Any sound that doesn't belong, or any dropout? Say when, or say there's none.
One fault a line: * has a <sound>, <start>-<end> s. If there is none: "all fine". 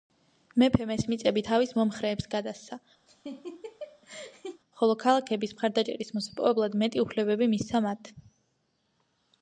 * has a laugh, 3.1-4.6 s